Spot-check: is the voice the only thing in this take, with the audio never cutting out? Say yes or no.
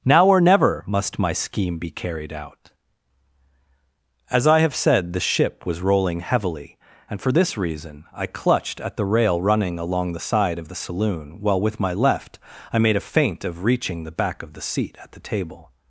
yes